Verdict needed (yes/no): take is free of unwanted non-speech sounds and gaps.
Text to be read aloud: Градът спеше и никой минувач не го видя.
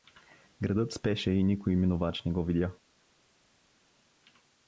yes